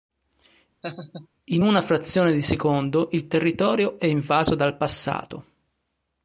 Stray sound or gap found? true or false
true